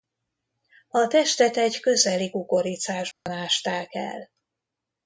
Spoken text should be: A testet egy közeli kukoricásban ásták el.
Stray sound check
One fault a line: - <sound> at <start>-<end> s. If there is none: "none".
- dropout at 3.1-3.3 s